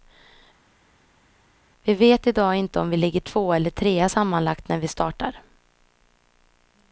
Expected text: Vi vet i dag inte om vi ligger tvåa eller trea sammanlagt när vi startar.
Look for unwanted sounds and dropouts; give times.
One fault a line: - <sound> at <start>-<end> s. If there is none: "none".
none